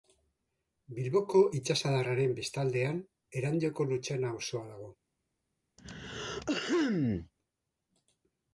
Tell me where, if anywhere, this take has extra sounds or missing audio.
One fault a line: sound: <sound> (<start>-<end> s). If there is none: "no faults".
sound: throat clearing (5.8-7.3 s)